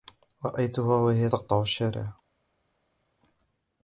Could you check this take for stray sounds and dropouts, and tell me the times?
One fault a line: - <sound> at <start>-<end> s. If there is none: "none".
none